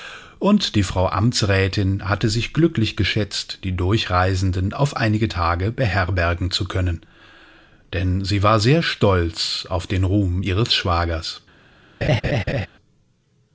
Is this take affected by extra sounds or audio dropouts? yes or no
yes